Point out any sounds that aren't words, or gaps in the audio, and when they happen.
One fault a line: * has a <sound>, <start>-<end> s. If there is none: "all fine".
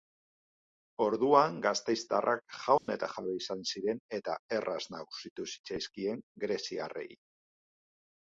* has a dropout, 2.8-2.9 s